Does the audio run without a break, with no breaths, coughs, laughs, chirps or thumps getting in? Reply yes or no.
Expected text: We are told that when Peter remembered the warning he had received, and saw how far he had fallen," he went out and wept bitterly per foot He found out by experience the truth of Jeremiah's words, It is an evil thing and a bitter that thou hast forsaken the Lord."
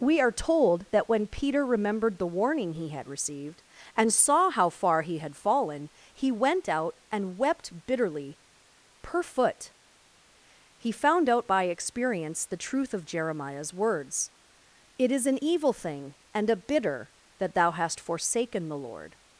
yes